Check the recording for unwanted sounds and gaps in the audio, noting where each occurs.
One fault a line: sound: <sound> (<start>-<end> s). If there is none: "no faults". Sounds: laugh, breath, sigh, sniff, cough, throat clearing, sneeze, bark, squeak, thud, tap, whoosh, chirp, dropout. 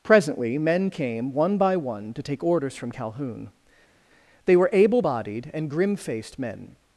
no faults